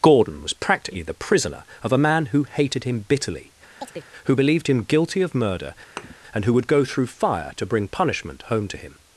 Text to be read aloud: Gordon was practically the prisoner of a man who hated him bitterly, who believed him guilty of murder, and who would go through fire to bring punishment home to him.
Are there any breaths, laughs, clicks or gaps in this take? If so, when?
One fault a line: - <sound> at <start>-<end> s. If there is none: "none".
- chirp at 3.8-4.1 s
- thud at 6.0-6.1 s